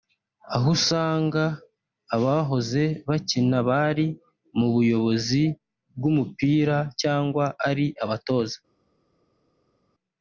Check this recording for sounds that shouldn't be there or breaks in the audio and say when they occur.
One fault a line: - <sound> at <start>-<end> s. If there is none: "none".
none